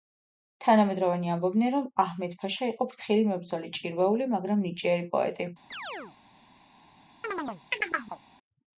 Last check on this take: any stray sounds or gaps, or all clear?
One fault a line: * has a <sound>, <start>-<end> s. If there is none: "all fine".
* has a chirp, 5.7-6.2 s
* has a chirp, 7.2-8.2 s